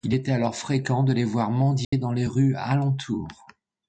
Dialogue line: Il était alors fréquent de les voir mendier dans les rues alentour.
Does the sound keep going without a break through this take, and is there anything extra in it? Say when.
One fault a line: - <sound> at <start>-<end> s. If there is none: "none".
- dropout at 1.8-1.9 s